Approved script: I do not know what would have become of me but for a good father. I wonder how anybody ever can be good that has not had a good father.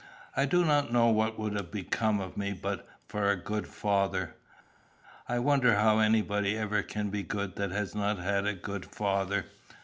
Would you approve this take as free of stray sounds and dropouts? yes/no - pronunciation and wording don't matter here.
yes